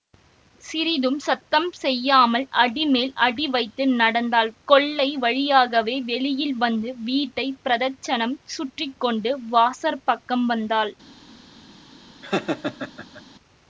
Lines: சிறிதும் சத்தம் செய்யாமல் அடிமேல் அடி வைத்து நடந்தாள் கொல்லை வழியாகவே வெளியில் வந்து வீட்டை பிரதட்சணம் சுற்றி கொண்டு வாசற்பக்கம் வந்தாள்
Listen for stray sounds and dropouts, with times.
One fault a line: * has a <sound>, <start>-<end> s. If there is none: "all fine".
* has a laugh, 12.2-13.2 s